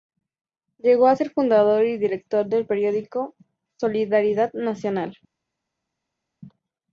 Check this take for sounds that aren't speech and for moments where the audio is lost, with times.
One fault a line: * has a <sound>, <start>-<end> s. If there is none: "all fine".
all fine